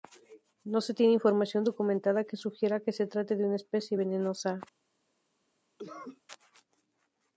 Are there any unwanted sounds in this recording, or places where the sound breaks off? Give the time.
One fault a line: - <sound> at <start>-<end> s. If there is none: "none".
- cough at 5.8-6.2 s